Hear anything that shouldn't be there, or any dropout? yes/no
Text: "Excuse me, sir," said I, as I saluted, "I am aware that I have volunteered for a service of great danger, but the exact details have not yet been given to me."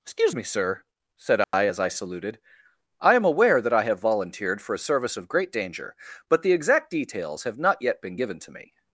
yes